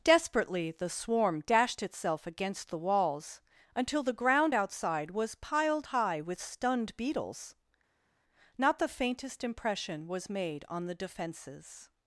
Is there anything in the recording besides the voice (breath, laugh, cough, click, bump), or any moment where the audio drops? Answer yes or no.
no